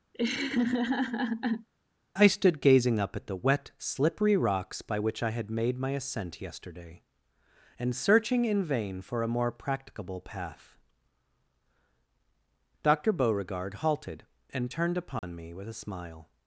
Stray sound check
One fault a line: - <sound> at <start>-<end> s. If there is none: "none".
- laugh at 0.1-1.7 s
- dropout at 15.2-15.2 s